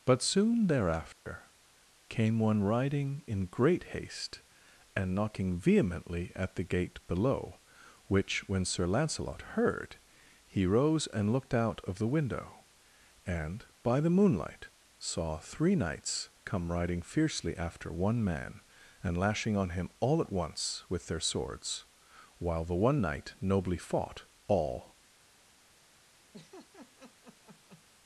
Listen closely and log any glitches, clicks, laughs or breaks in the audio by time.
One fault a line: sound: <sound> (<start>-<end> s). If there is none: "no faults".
sound: dropout (1.1-1.3 s)
sound: laugh (26.3-27.8 s)